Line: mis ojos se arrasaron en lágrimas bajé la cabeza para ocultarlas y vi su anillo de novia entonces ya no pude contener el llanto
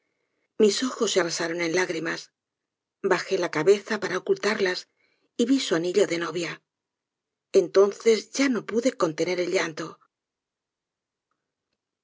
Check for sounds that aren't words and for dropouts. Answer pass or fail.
pass